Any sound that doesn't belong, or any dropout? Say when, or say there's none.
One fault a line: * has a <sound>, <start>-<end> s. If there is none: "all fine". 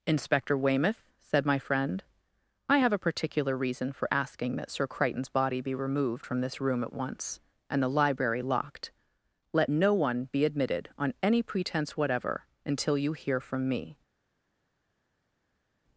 all fine